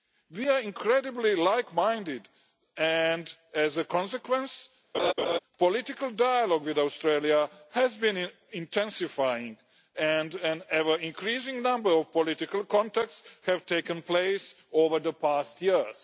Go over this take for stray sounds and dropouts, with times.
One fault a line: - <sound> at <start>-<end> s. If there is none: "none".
- laugh at 4.9-5.4 s